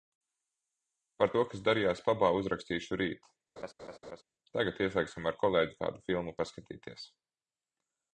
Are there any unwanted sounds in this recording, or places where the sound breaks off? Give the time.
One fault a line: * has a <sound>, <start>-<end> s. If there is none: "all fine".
* has a laugh, 3.6-4.2 s